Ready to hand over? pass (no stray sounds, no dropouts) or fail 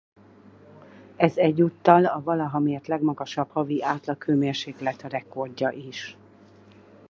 pass